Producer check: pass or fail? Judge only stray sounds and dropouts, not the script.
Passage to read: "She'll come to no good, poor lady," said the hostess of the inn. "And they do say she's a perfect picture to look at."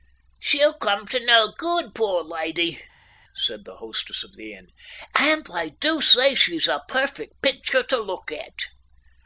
pass